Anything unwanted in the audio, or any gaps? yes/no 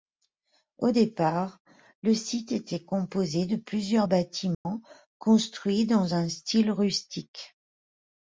yes